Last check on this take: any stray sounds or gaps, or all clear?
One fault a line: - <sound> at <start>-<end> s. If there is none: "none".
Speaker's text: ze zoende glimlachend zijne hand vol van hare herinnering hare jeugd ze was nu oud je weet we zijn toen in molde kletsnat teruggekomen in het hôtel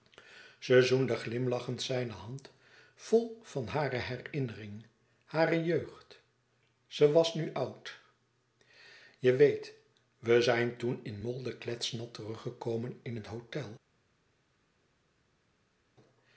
none